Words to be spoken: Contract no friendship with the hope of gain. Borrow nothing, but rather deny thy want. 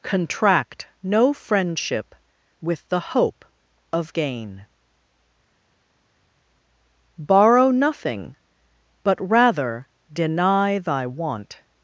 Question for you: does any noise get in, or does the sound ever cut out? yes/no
no